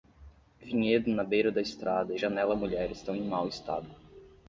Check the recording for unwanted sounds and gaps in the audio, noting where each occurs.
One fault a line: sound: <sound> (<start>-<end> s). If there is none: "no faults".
no faults